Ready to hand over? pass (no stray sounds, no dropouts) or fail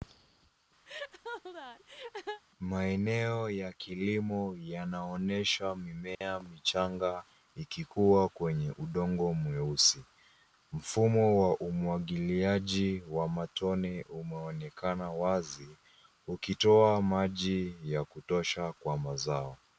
fail